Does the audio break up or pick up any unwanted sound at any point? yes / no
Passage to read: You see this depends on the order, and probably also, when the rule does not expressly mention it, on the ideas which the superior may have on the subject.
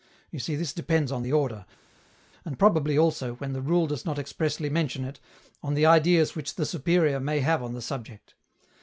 no